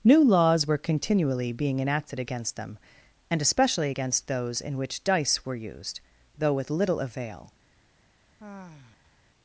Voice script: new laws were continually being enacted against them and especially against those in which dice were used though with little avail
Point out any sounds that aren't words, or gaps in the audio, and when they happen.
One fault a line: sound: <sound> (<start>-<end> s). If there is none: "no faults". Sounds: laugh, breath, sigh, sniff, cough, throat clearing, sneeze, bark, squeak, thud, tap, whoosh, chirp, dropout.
sound: sigh (8.4-9.2 s)